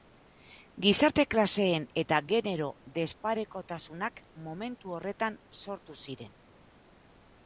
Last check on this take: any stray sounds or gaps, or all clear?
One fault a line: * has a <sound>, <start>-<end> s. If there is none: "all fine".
all fine